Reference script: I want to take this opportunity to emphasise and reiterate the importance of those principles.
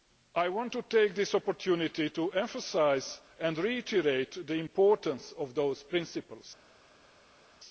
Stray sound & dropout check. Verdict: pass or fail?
pass